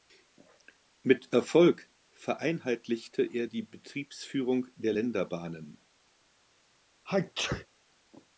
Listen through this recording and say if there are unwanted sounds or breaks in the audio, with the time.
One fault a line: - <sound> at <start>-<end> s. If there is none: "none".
- sneeze at 7.0-7.7 s